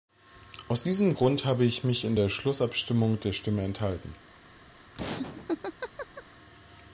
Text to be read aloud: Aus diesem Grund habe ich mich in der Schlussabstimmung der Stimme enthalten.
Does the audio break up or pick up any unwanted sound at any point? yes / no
yes